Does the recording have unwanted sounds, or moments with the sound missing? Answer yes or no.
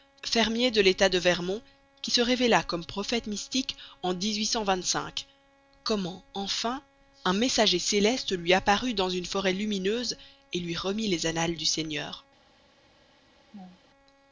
yes